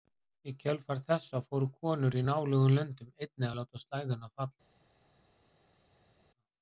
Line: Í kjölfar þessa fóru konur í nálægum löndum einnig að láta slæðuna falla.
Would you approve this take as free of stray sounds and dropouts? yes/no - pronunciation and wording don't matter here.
yes